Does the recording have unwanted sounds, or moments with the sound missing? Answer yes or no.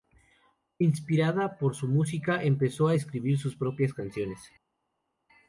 no